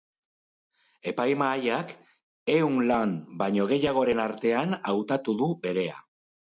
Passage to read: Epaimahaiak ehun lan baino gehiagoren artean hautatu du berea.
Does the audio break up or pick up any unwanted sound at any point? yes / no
no